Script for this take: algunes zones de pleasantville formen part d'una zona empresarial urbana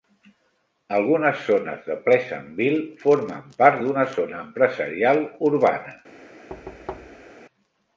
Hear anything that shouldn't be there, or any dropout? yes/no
yes